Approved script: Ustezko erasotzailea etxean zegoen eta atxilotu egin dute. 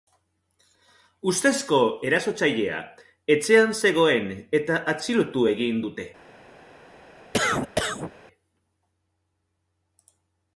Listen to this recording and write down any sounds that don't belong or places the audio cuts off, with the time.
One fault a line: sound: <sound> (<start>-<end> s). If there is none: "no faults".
sound: cough (7.3-8.1 s)